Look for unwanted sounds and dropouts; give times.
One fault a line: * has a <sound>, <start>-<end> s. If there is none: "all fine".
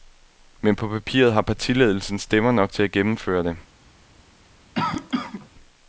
* has a cough, 4.7-5.5 s